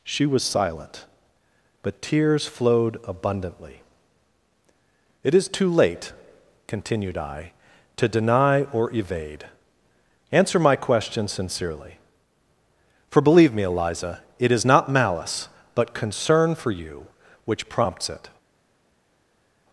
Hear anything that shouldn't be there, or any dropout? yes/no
no